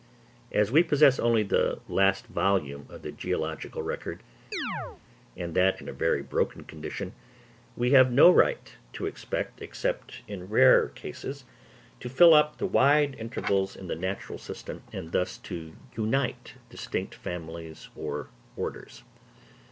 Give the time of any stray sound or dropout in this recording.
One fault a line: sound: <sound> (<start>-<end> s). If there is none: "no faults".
sound: chirp (4.5-5.0 s)